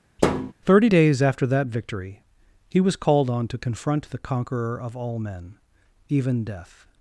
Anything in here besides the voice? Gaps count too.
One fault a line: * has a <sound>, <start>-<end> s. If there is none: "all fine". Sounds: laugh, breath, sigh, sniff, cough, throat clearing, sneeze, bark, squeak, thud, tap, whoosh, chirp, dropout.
* has a thud, 0.2-0.5 s